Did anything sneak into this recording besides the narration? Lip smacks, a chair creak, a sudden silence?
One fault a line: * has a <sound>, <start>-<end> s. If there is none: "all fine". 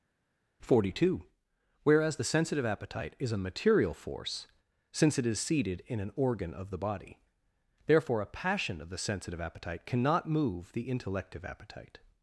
all fine